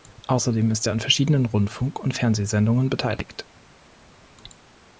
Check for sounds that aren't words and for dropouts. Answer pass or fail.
pass